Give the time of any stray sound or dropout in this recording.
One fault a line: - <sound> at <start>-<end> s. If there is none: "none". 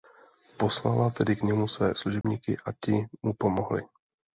- dropout at 2.2-2.2 s